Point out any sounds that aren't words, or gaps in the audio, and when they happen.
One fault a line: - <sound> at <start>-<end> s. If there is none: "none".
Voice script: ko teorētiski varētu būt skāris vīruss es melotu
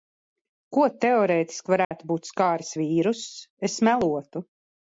- dropout at 1.8-1.9 s